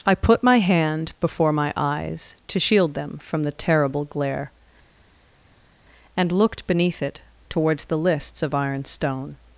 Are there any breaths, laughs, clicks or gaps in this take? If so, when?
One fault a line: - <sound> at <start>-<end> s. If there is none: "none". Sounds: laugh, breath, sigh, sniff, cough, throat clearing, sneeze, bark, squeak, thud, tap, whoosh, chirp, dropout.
none